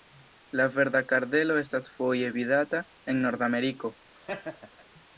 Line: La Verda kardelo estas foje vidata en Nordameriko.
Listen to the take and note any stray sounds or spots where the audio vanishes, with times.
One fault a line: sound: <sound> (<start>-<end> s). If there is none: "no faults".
sound: laugh (4.1-4.8 s)